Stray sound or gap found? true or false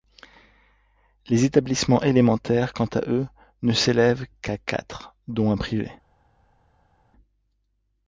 false